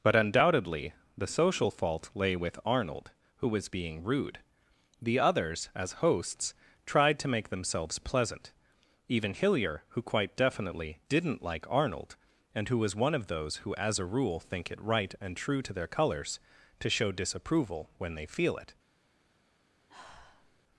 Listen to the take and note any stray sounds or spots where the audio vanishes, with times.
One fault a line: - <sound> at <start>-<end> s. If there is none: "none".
- sigh at 19.9-20.6 s